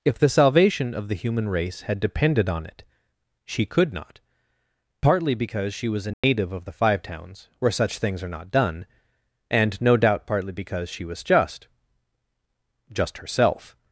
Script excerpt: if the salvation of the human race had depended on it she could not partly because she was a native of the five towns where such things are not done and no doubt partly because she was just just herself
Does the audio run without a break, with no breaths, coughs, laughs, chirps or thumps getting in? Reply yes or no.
no